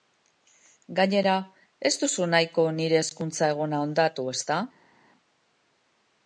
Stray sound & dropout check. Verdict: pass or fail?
pass